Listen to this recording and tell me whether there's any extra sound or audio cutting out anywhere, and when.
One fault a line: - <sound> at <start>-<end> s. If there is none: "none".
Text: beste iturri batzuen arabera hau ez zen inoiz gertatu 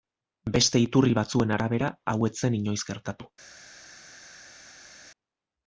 none